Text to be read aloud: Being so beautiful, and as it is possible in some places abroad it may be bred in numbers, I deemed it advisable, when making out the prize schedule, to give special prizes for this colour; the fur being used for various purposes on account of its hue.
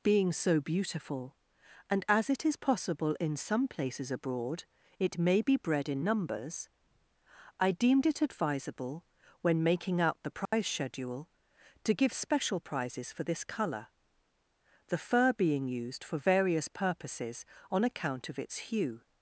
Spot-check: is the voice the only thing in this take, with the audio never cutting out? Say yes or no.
no